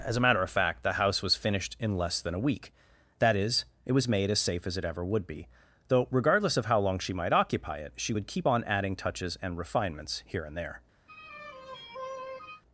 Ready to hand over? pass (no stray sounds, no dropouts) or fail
fail